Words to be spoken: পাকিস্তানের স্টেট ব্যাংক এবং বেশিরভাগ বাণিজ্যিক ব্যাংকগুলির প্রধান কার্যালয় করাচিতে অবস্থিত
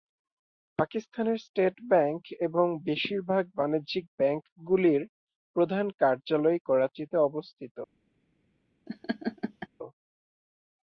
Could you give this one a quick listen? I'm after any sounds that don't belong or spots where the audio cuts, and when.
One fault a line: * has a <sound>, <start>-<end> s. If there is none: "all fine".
* has a laugh, 8.9-9.7 s